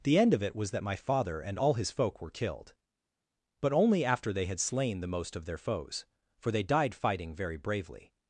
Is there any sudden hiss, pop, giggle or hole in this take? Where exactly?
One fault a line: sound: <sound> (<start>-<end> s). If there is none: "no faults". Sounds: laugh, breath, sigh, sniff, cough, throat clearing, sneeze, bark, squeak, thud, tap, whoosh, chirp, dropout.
no faults